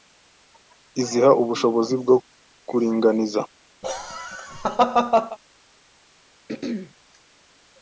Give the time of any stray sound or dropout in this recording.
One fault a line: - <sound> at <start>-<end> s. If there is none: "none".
- laugh at 3.8-5.4 s
- throat clearing at 6.5-6.9 s